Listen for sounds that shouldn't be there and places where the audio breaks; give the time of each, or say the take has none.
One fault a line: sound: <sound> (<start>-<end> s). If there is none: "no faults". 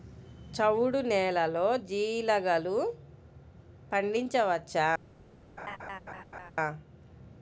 sound: laugh (5.6-6.5 s)